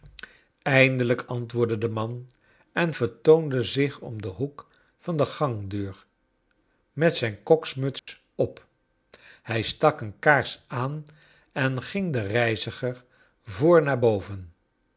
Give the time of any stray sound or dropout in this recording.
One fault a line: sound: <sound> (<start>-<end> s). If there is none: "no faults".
sound: dropout (8.0-8.1 s)